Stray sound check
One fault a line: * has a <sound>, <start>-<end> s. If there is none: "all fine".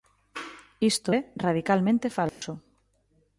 * has a dropout, 2.3-2.4 s